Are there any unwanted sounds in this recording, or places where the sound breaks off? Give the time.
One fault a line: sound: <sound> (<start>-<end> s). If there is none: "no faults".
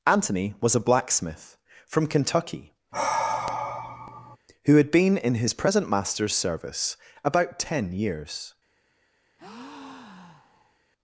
sound: sigh (2.9-4.4 s)
sound: breath (9.4-10.8 s)